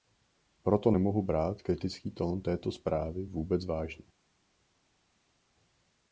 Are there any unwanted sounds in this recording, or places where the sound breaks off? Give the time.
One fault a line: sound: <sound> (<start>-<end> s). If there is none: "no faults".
no faults